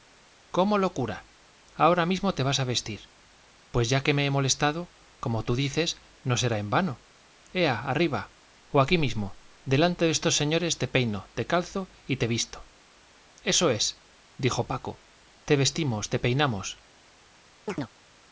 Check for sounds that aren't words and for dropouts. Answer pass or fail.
fail